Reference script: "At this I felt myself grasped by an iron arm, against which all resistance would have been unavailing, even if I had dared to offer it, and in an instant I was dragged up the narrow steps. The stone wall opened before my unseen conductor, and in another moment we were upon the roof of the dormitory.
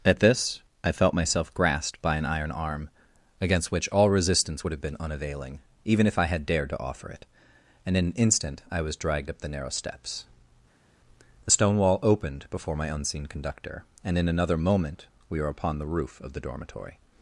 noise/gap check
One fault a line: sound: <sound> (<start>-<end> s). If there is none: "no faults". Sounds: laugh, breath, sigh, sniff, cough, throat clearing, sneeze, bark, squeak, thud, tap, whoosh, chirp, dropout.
no faults